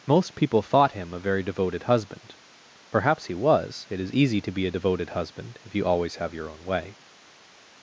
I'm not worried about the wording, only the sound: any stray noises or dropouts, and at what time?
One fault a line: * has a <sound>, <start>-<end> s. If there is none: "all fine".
all fine